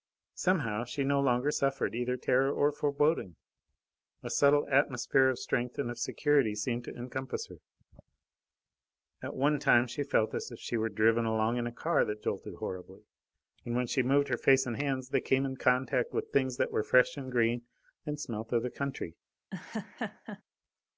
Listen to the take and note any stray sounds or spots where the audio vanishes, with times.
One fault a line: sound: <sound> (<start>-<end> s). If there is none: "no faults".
sound: laugh (19.5-20.4 s)